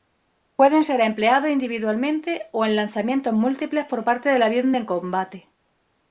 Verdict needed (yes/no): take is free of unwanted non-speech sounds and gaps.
yes